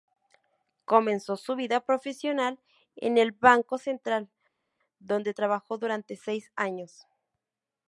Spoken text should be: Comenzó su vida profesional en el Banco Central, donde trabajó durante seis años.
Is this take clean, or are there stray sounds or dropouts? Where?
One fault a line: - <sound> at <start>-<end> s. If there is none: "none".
none